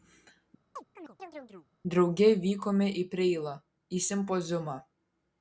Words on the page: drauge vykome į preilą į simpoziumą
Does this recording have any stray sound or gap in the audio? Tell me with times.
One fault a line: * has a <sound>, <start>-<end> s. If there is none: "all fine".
* has a chirp, 0.8-1.7 s